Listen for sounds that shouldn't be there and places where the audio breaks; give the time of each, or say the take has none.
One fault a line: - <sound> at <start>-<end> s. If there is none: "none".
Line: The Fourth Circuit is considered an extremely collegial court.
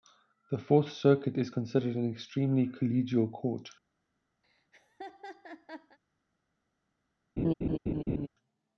- laugh at 4.4-6.0 s
- laugh at 7.4-8.3 s